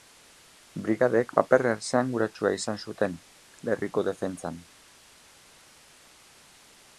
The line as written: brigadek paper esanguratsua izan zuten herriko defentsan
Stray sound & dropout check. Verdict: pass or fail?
pass